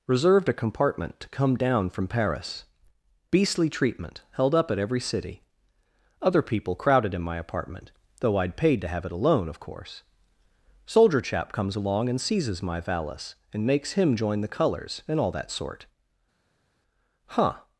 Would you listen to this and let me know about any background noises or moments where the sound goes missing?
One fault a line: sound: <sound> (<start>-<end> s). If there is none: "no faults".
no faults